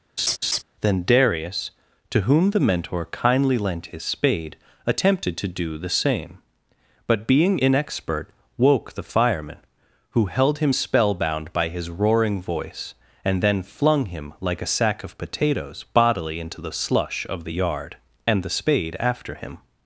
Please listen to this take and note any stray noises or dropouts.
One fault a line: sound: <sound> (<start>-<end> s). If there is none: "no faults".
sound: laugh (0.2-0.6 s)